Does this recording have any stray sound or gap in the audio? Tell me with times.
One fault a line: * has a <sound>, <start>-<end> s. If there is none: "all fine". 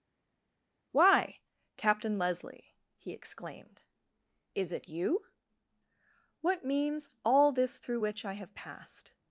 all fine